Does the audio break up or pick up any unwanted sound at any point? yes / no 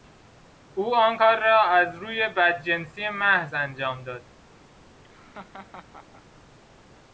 yes